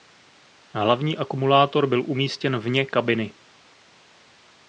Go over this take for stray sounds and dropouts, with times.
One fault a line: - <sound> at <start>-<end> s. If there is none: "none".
none